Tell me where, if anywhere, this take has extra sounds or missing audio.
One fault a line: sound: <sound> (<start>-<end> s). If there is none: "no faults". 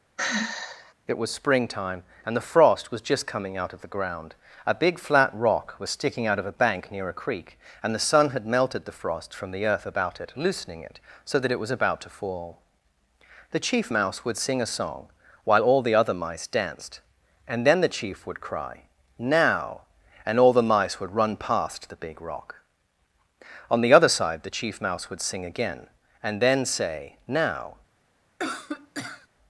sound: sigh (0.2-0.9 s)
sound: cough (28.4-29.3 s)